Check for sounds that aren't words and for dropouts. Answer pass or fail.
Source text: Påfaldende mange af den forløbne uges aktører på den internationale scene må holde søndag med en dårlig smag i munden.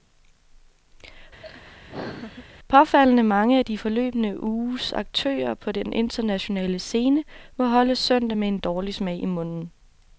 fail